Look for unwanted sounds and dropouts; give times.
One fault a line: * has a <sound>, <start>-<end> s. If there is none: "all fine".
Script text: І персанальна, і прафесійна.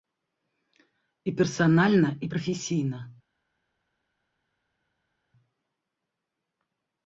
all fine